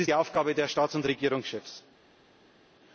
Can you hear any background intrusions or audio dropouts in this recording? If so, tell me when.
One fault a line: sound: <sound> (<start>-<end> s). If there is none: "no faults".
no faults